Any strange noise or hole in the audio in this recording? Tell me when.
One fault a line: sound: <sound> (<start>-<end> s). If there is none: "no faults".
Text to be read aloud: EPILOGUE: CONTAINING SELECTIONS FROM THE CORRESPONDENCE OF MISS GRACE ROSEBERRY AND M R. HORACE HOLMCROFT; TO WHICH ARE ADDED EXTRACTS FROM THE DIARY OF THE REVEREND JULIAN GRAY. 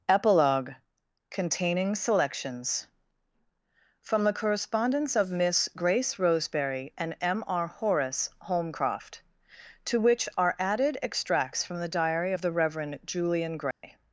sound: dropout (13.7-13.8 s)